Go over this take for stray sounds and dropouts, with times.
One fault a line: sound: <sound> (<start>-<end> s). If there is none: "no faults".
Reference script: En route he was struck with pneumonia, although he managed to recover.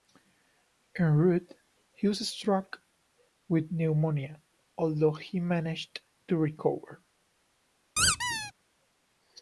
sound: squeak (8.0-8.5 s)